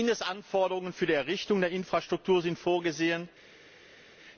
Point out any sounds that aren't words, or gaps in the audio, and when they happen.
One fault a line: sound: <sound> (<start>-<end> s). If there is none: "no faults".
no faults